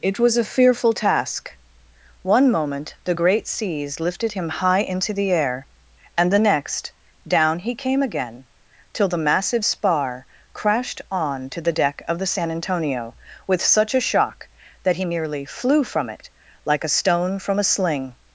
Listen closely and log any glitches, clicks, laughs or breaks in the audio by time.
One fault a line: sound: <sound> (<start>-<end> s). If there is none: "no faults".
no faults